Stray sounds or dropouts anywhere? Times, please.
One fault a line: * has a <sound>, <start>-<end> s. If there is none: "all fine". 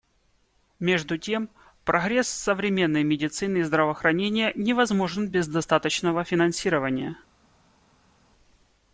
all fine